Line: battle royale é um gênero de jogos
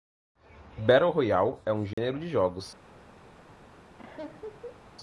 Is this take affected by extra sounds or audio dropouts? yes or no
yes